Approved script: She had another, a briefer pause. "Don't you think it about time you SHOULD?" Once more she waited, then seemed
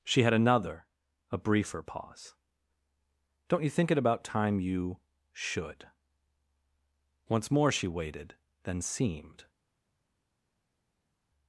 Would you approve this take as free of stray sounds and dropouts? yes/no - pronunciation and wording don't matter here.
yes